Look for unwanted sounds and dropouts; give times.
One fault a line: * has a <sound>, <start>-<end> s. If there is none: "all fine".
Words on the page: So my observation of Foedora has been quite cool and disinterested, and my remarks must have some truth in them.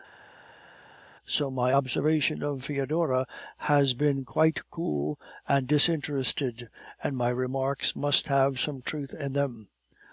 all fine